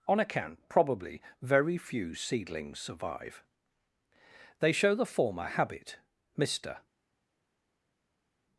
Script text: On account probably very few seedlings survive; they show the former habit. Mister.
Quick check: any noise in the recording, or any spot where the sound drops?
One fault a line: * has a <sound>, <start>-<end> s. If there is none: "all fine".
all fine